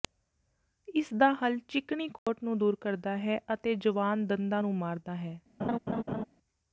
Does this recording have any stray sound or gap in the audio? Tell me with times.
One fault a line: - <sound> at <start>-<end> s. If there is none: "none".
- dropout at 2.2-2.3 s
- laugh at 5.6-6.2 s